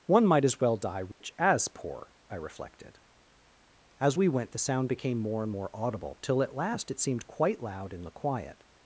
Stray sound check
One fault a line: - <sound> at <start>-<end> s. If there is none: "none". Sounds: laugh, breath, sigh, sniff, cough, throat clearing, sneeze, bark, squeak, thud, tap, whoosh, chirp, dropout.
- dropout at 1.1-1.2 s